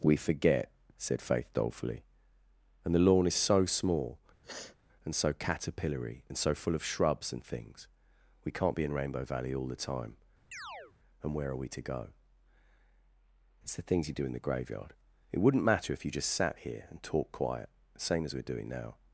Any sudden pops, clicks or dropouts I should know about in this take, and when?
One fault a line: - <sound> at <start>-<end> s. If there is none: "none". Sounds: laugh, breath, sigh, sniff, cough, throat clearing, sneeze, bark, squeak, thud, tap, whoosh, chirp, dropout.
- sniff at 4.4-4.8 s
- chirp at 10.5-10.9 s